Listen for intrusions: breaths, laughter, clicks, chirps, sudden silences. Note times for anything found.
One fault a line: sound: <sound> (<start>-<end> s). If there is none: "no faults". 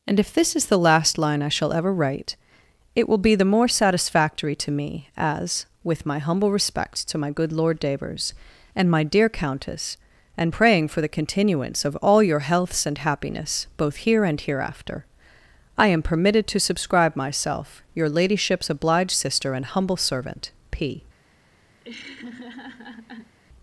sound: laugh (21.8-23.4 s)